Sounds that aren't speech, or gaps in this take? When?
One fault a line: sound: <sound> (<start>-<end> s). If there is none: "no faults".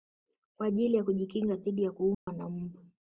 sound: dropout (2.1-2.3 s)